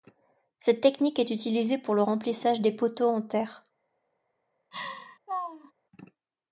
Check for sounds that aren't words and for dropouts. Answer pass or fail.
fail